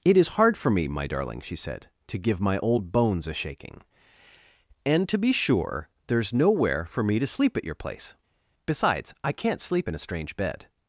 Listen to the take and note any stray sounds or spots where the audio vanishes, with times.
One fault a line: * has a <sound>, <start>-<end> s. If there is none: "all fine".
all fine